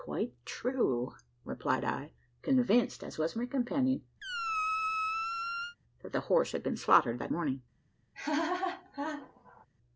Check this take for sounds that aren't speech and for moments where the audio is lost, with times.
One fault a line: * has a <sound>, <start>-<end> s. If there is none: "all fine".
* has a squeak, 4.2-5.8 s
* has a laugh, 8.1-9.7 s